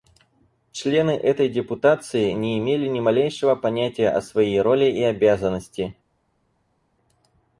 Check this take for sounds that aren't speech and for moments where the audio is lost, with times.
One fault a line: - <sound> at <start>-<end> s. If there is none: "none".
none